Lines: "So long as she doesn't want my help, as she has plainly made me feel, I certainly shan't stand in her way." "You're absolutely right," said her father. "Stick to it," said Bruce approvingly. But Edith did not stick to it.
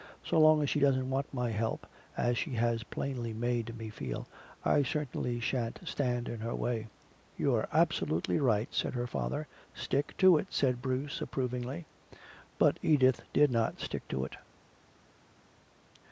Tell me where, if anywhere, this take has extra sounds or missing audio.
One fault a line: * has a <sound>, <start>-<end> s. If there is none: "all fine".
all fine